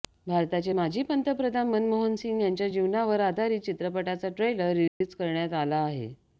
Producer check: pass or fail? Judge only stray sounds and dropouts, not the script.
fail